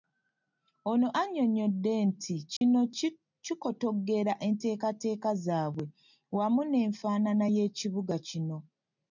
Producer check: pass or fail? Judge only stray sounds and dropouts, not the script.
fail